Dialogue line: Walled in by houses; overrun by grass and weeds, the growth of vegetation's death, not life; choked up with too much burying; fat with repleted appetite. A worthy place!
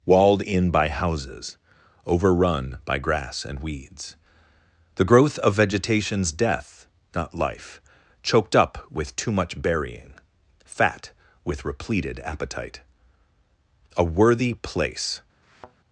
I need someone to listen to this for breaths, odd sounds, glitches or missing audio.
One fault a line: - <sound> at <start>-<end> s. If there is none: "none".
- thud at 15.4-15.8 s